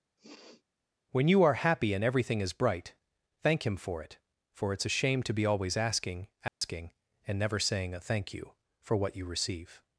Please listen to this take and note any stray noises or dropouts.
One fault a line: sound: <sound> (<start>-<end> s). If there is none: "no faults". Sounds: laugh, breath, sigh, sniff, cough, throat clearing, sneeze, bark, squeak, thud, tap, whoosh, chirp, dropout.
sound: sniff (0.2-0.6 s)
sound: dropout (6.5-6.6 s)